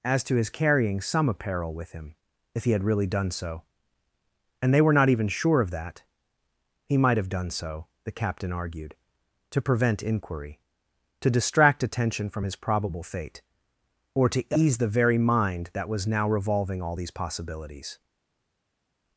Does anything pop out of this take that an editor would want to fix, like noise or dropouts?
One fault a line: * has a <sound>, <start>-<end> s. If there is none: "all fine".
all fine